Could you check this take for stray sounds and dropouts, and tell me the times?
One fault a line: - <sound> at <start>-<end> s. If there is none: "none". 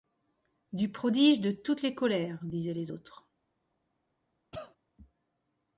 - cough at 4.5-4.8 s